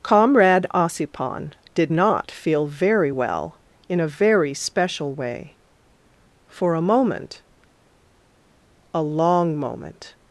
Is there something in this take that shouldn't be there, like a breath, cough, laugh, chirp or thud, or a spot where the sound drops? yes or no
no